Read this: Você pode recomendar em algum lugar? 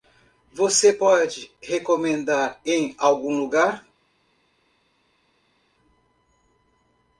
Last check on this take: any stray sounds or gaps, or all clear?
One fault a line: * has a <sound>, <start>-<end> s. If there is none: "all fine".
all fine